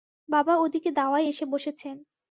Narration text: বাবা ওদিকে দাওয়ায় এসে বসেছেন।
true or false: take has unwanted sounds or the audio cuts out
false